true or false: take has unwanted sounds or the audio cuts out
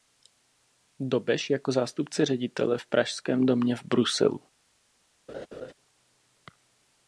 true